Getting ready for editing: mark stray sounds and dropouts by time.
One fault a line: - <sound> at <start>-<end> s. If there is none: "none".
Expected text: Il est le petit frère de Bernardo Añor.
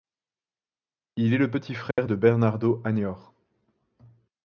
- dropout at 1.9-2.0 s